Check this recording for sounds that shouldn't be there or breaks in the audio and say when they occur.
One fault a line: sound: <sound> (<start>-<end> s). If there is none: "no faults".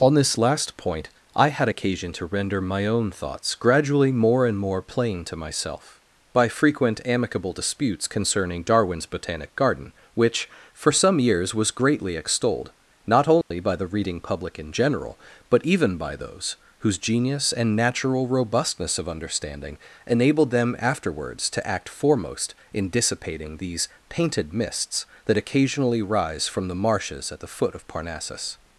sound: dropout (13.4-13.5 s)